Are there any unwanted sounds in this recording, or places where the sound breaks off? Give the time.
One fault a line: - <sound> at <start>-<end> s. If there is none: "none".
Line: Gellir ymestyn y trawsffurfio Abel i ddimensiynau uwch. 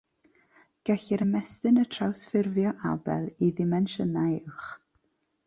none